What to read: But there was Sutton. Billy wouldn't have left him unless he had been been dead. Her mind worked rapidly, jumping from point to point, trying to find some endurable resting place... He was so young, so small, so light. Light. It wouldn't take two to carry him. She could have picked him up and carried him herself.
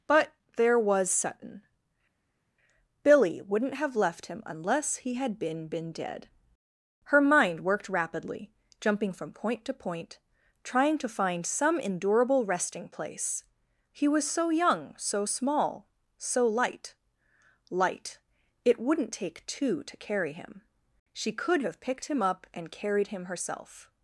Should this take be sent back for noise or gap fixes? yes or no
no